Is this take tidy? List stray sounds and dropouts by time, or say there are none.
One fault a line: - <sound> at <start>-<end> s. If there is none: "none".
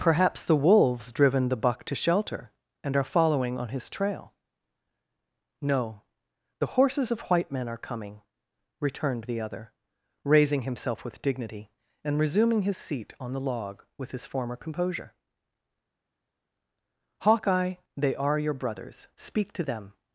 none